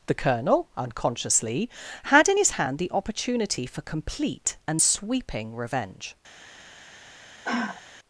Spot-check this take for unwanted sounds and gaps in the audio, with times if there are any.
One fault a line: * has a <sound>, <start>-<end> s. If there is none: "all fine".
* has a sigh, 7.4-7.8 s